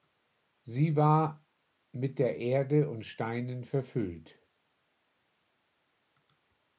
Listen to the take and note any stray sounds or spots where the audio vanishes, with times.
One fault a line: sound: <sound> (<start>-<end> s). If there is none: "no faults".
no faults